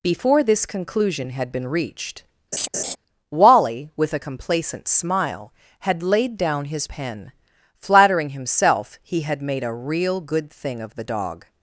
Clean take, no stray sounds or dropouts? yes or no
no